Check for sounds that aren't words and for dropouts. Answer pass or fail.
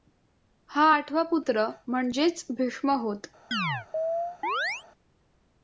fail